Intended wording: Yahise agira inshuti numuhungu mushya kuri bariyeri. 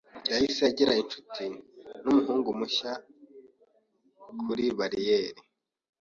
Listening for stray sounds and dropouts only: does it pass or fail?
pass